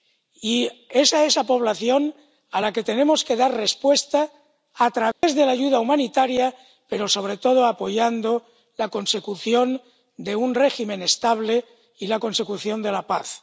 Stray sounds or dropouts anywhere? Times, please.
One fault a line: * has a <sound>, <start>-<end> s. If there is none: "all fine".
* has a dropout, 5.1-5.2 s